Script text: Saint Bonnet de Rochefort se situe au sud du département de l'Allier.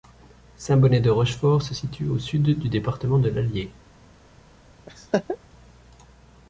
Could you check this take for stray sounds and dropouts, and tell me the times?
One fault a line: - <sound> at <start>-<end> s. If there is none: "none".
- laugh at 4.9-5.4 s